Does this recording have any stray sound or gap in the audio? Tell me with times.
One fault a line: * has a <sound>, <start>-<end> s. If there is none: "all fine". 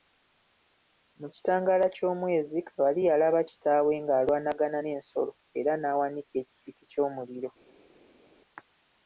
all fine